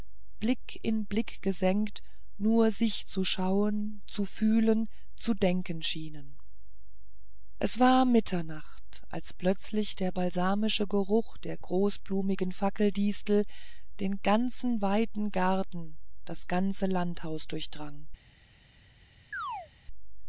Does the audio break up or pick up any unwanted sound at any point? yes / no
yes